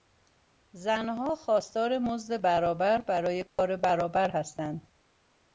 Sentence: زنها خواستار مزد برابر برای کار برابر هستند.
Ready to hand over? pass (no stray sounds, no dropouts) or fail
fail